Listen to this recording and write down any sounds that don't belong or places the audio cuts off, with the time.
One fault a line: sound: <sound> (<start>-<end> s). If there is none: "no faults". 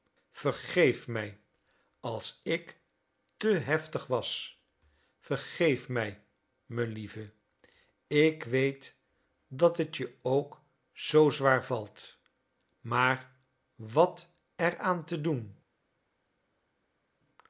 no faults